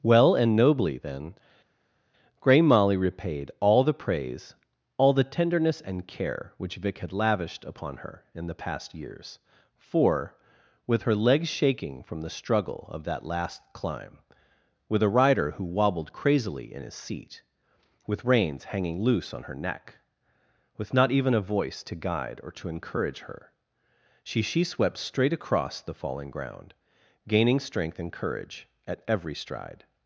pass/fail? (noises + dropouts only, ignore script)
pass